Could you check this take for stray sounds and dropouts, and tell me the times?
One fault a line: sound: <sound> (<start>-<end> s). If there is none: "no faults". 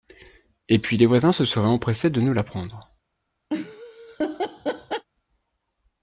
sound: laugh (3.5-5.1 s)